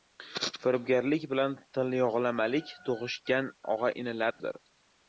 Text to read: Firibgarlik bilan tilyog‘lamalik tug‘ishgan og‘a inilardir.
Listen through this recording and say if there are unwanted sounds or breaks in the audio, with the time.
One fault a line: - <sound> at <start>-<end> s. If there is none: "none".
- dropout at 4.3-4.4 s